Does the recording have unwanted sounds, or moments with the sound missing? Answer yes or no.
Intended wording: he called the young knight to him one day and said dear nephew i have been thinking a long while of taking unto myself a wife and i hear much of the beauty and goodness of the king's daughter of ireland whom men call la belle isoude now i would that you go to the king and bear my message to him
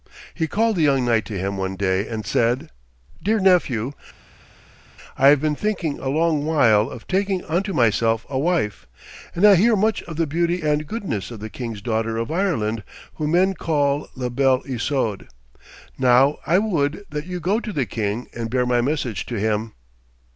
no